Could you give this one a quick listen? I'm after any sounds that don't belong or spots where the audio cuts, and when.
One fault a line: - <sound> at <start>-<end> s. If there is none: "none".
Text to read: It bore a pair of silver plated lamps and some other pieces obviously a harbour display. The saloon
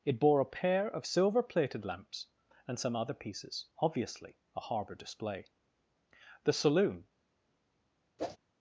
- whoosh at 8.2-8.4 s